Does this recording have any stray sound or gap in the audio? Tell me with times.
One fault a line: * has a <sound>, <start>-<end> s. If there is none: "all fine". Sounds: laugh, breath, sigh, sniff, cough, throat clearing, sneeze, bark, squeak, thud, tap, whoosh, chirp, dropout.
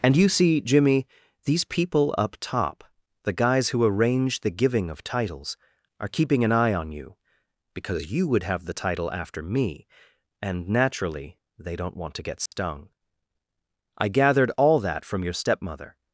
* has a dropout, 12.5-12.5 s